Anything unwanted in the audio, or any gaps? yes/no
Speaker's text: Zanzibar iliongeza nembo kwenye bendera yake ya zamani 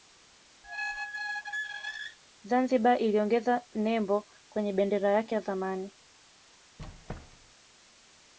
yes